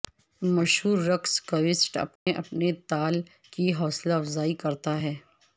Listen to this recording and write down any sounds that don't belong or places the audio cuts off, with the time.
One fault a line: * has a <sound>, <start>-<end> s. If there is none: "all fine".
* has a dropout, 2.2-2.3 s